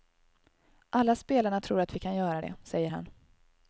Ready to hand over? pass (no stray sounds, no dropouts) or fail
pass